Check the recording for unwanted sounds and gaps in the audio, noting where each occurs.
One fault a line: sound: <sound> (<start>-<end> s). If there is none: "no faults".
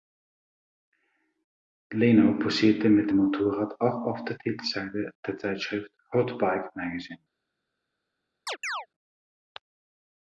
sound: chirp (8.5-8.9 s)